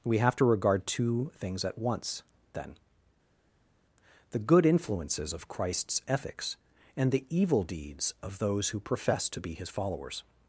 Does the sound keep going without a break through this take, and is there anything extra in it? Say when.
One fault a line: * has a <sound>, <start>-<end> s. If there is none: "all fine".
all fine